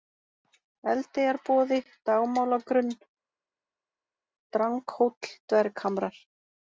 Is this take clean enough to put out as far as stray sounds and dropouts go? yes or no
yes